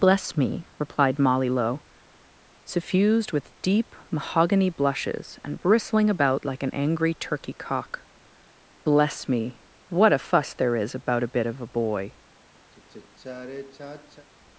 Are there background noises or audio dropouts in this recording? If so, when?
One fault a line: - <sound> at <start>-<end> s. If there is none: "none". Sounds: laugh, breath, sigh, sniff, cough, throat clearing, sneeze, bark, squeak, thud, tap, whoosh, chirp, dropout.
- sigh at 12.7-14.3 s